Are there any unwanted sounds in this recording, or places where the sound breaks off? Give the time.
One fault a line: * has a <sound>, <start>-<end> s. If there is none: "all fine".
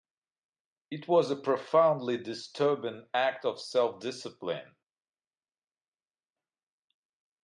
all fine